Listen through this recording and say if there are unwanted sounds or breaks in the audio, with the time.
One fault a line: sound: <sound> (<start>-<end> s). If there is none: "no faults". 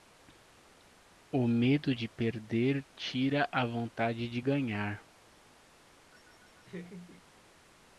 sound: laugh (6.1-7.2 s)